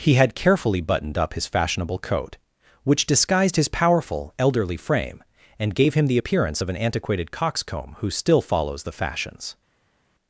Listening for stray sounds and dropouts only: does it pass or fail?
pass